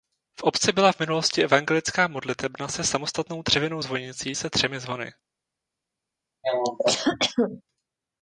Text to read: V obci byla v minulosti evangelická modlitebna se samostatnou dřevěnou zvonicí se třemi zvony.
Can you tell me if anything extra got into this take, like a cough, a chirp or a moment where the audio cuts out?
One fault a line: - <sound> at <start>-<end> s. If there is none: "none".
- cough at 6.4-7.6 s